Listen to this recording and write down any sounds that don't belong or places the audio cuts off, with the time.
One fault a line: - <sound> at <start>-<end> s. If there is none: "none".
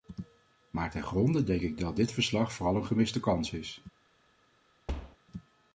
- thud at 4.9-5.2 s